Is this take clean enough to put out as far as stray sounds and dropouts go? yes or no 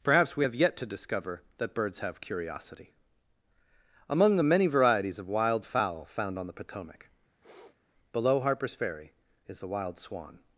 no